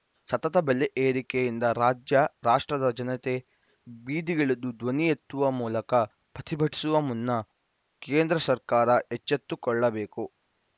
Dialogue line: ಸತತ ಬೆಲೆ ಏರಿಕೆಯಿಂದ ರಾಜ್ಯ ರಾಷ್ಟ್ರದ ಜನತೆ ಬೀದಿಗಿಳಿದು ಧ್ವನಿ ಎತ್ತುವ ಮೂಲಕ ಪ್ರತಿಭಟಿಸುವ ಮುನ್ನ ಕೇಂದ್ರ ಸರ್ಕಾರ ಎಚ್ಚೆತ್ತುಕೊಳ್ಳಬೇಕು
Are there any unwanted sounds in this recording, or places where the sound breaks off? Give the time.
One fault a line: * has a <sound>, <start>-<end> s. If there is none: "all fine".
all fine